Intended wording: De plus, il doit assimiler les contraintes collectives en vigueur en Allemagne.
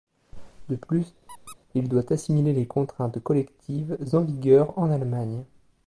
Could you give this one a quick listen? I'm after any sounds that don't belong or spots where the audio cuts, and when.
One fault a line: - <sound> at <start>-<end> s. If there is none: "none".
- squeak at 1.3-1.6 s